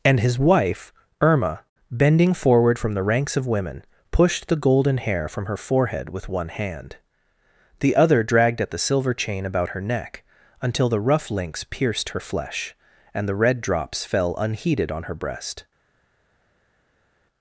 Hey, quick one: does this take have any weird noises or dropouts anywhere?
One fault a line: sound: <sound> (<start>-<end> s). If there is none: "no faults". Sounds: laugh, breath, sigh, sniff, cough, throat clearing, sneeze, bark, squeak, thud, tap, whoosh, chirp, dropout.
no faults